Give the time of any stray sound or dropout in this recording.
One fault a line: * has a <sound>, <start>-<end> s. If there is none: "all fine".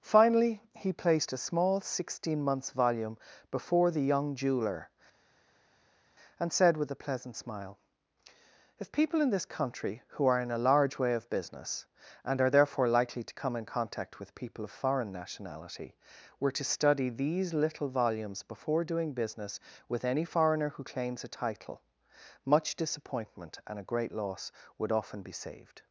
all fine